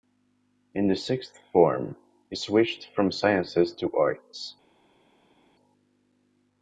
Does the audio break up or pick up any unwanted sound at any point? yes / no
no